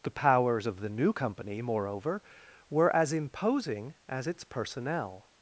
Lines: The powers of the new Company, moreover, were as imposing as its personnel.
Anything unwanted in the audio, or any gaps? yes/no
no